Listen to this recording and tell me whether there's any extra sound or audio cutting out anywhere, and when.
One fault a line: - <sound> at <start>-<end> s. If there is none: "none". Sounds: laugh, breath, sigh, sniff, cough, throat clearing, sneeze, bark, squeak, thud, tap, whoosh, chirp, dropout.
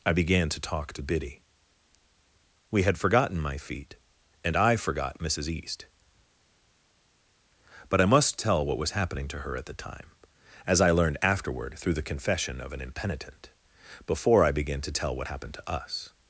none